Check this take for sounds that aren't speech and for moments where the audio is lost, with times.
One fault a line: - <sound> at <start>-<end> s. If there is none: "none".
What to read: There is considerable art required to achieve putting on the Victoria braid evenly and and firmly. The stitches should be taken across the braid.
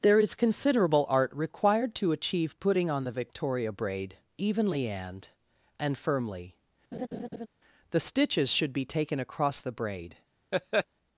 - laugh at 6.9-7.5 s
- laugh at 10.5-10.9 s